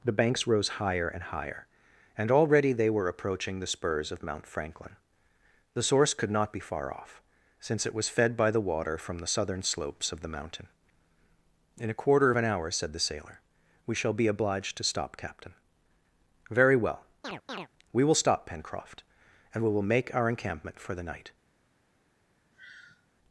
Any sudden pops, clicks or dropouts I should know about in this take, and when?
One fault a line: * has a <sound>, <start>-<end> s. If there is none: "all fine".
* has a chirp, 17.2-17.7 s
* has a sigh, 22.5-23.1 s